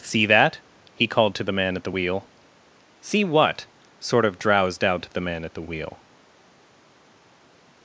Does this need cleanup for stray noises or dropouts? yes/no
no